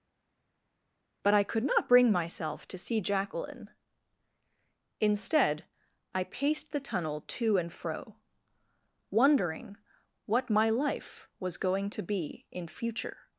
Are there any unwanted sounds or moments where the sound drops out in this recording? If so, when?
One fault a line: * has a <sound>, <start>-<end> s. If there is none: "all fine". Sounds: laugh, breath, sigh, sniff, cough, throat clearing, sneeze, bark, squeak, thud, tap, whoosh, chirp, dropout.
all fine